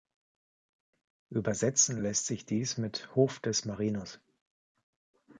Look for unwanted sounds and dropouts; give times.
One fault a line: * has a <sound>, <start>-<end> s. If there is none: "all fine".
all fine